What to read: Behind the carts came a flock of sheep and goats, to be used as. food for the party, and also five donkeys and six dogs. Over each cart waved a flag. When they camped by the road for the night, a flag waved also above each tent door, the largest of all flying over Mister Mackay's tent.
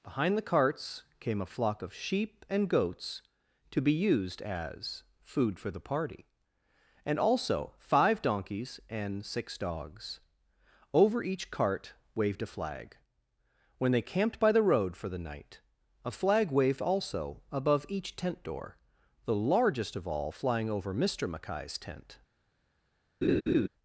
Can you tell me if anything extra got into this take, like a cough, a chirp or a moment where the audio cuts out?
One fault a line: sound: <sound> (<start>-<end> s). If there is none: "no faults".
sound: laugh (23.2-23.7 s)